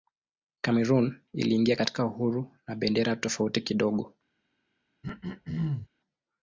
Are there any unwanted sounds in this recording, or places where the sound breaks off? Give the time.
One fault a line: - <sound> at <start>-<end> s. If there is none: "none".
- throat clearing at 5.0-5.9 s